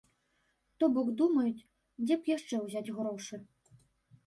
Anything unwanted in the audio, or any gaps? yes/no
no